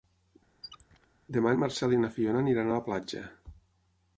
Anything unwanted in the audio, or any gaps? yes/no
yes